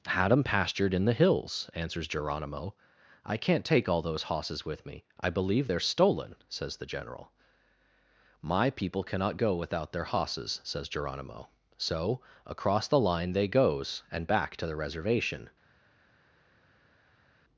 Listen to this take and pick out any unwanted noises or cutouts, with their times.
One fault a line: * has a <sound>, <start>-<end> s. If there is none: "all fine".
all fine